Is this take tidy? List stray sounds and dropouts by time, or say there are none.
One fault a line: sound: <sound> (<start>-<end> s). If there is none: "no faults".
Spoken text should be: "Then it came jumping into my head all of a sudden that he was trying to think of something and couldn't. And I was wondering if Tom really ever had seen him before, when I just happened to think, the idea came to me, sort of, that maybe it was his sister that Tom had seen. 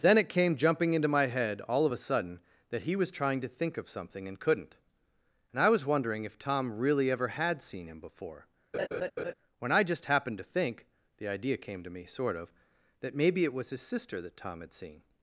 sound: laugh (8.7-9.3 s)